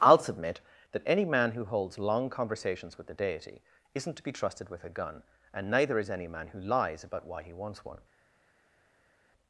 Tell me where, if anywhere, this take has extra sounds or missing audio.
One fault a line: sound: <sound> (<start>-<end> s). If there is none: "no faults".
no faults